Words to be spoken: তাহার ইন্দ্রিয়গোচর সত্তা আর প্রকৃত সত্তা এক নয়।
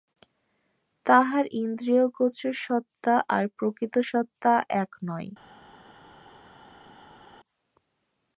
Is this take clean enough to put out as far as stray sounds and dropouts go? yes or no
yes